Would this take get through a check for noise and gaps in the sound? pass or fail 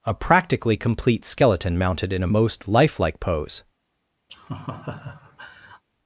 fail